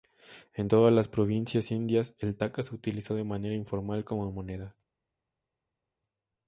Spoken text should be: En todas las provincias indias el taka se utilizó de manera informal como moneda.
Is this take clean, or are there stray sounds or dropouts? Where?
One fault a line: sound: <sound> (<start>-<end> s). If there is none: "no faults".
no faults